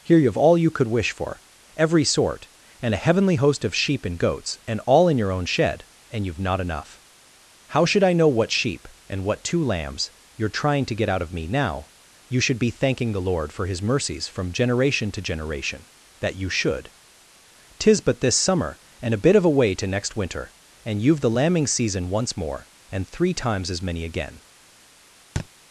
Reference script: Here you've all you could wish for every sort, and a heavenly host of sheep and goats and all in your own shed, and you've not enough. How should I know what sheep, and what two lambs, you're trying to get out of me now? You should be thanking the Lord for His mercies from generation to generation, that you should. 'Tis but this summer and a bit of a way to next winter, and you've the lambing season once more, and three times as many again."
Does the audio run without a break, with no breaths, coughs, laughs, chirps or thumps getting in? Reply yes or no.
no